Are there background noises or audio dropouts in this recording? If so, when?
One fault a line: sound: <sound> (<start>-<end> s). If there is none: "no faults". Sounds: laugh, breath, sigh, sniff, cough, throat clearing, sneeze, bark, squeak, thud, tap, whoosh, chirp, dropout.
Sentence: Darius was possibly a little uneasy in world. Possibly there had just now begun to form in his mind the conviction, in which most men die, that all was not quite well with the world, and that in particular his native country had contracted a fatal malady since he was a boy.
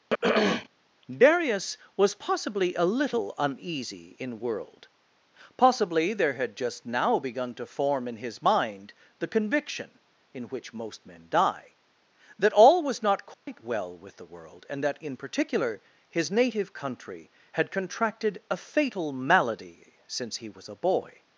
sound: throat clearing (0.1-0.7 s)
sound: dropout (13.3-13.5 s)